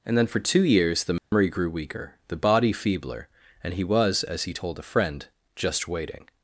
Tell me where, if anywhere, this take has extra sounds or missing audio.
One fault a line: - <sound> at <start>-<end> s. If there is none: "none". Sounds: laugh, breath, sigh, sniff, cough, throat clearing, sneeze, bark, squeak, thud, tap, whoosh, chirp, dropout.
- dropout at 1.2-1.3 s